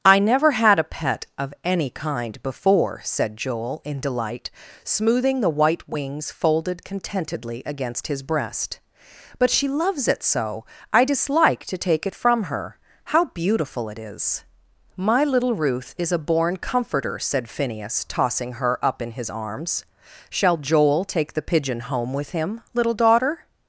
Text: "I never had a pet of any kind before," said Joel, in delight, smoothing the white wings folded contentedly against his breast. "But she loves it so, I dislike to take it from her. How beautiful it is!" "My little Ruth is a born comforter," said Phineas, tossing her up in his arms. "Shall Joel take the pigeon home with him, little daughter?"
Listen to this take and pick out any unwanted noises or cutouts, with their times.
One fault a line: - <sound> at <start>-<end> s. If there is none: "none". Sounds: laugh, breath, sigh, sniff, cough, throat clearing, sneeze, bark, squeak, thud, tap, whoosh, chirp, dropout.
none